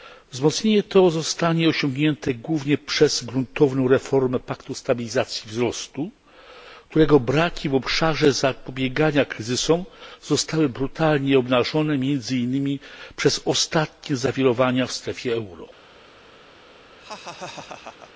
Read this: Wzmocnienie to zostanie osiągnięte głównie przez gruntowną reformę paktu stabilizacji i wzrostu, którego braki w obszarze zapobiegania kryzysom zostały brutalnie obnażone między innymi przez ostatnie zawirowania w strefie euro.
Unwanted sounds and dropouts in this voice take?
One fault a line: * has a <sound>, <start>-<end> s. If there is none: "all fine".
* has a laugh, 17.0-18.1 s